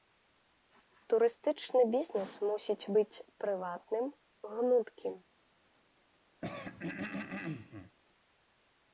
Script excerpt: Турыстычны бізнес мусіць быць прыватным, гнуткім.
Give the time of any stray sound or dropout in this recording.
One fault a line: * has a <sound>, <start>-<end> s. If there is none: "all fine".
* has a throat clearing, 6.4-8.0 s